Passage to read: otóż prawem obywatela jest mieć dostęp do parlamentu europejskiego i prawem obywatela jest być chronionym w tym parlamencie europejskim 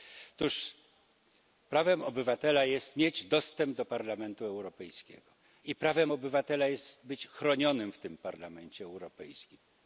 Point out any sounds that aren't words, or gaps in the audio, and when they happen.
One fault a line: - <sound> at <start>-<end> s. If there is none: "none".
none